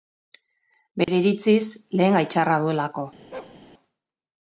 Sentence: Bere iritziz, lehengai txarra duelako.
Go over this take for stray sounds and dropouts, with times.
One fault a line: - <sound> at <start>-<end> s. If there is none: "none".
- dropout at 1.0-1.1 s
- bark at 3.3-3.6 s